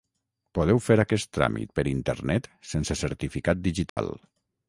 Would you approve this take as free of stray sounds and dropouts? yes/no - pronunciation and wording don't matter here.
no